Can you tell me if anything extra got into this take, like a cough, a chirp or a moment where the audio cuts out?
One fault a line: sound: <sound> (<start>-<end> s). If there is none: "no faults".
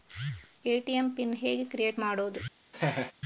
sound: laugh (2.7-3.1 s)